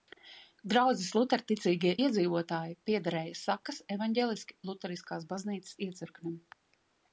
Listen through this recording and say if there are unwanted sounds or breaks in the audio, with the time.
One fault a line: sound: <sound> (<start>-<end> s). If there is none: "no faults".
no faults